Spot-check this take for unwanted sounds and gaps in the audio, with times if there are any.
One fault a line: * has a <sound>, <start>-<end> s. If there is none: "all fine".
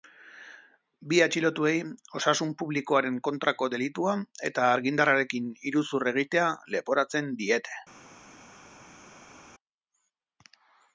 all fine